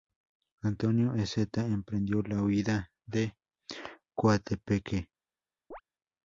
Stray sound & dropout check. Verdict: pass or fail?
fail